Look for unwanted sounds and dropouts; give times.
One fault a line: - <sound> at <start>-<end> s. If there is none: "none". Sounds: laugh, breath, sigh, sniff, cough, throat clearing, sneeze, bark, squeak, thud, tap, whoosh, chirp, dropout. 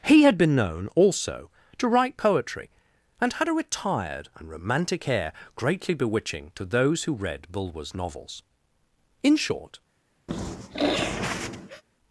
- sniff at 10.3-11.8 s